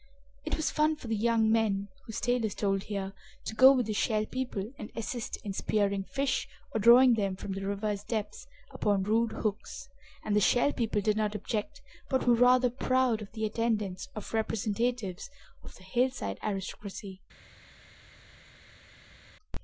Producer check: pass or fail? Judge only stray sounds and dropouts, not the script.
pass